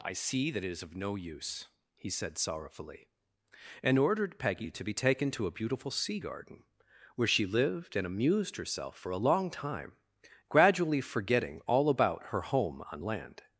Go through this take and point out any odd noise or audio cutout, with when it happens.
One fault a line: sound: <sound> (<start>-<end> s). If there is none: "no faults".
no faults